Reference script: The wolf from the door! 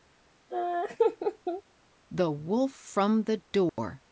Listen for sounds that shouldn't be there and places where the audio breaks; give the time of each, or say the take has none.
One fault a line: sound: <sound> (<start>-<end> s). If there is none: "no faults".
sound: laugh (0.5-1.6 s)
sound: dropout (3.7-3.8 s)